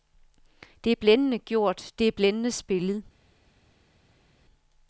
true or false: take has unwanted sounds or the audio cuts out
false